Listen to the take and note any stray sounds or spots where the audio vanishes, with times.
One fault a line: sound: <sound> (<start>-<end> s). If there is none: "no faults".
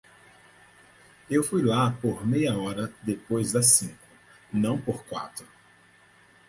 no faults